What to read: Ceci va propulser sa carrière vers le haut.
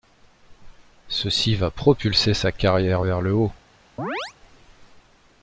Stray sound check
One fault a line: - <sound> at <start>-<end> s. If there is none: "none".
- chirp at 4.0-4.3 s